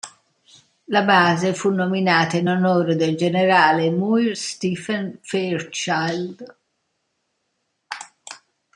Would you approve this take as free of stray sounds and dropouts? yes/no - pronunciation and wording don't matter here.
yes